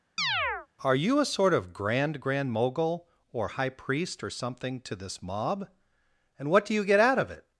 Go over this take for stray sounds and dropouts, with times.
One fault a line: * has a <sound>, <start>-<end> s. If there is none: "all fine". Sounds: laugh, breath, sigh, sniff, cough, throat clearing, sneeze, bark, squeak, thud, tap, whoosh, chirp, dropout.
* has a chirp, 0.2-0.7 s